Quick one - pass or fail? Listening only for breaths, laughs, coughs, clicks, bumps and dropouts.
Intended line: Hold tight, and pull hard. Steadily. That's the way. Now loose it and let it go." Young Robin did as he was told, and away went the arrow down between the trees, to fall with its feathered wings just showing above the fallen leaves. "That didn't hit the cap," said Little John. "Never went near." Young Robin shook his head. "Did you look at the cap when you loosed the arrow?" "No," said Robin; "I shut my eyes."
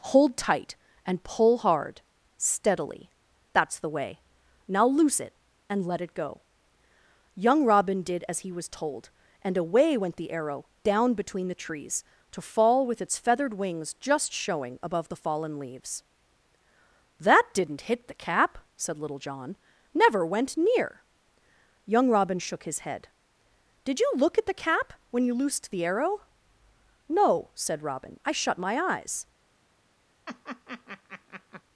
fail